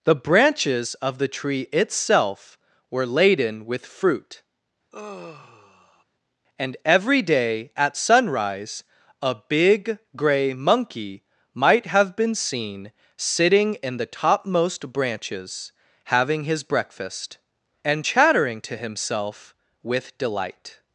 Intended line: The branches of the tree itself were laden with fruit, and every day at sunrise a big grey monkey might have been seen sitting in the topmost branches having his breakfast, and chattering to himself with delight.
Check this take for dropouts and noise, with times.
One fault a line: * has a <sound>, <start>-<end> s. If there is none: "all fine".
* has a sigh, 4.9-6.0 s